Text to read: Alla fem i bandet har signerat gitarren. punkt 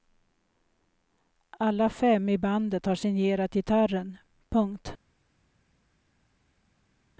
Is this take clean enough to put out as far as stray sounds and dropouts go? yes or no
yes